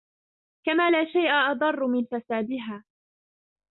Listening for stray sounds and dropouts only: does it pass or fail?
pass